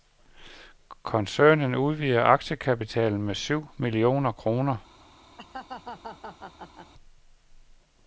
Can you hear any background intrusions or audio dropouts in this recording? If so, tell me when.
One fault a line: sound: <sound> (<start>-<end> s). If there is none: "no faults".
sound: laugh (5.4-6.9 s)